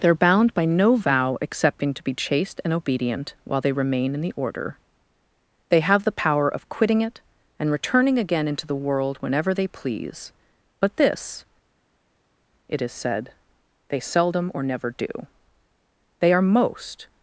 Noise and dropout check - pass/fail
pass